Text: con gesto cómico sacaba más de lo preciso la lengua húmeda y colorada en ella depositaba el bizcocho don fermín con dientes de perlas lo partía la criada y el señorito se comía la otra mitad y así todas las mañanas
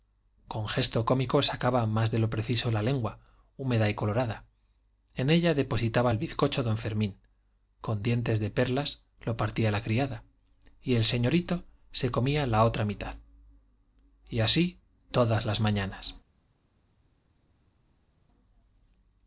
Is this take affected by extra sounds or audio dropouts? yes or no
no